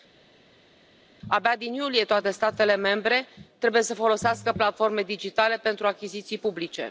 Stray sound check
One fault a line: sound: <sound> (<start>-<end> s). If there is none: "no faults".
no faults